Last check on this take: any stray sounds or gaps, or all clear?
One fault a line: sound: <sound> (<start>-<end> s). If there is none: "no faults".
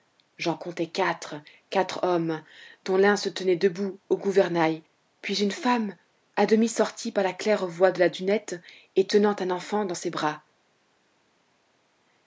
no faults